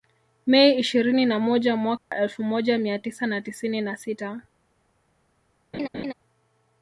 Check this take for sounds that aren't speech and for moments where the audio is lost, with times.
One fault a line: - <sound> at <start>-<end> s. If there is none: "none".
- dropout at 2.0-2.1 s
- laugh at 5.7-6.1 s